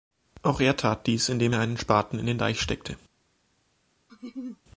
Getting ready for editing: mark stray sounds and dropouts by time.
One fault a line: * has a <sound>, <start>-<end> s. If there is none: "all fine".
* has a laugh, 4.1-4.6 s